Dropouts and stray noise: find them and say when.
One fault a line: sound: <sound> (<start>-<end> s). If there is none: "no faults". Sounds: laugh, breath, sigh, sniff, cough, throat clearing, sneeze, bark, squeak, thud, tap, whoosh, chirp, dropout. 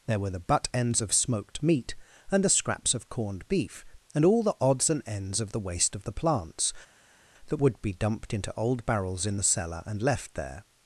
no faults